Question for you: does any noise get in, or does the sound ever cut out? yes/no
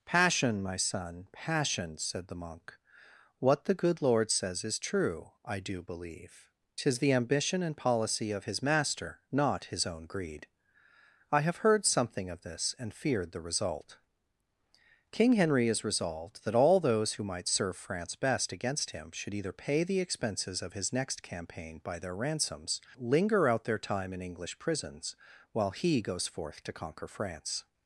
no